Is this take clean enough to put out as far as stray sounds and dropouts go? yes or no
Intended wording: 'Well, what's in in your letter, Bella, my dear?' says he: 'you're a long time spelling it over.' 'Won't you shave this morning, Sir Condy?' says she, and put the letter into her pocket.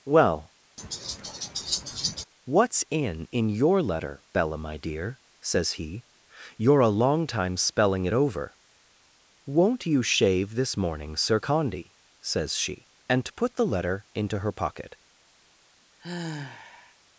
no